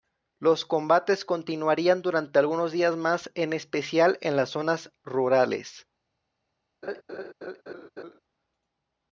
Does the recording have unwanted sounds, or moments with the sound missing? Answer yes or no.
yes